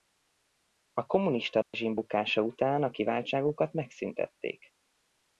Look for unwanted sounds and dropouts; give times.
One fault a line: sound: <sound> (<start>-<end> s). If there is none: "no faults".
sound: dropout (1.6-1.7 s)